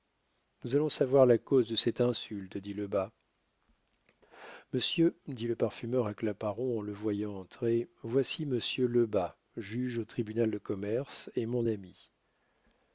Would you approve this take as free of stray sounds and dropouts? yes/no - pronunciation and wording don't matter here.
yes